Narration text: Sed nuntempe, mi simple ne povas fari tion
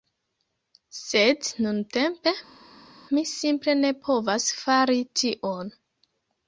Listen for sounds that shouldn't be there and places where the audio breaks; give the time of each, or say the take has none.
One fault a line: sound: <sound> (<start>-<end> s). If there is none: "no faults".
no faults